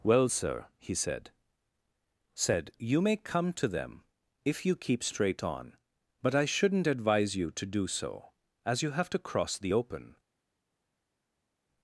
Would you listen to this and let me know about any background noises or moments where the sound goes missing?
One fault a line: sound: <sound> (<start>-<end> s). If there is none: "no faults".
no faults